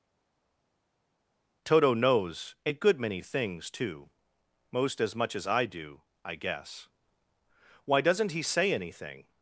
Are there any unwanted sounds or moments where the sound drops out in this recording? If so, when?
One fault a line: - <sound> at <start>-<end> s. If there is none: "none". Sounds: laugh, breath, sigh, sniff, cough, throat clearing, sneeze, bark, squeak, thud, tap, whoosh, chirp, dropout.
none